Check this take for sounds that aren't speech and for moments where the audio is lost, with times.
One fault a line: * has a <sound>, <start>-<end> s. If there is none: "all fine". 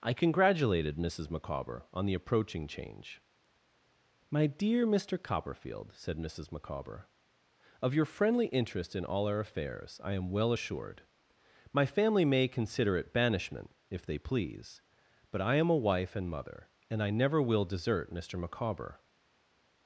all fine